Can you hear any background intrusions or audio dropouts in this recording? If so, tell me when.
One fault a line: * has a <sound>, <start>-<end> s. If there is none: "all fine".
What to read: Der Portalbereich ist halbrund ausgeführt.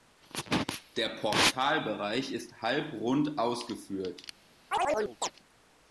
* has a chirp, 4.7-5.3 s